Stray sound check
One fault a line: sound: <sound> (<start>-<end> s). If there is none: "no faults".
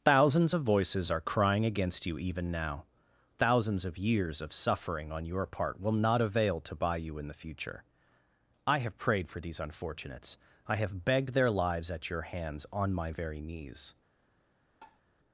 sound: tap (14.8-15.0 s)